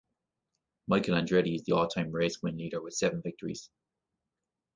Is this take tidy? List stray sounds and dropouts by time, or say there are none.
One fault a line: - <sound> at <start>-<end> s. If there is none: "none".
none